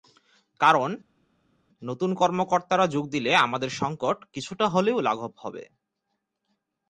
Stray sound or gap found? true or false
false